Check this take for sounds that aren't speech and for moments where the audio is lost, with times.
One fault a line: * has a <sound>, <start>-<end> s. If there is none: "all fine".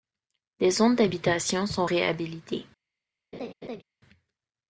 * has a laugh, 3.3-3.8 s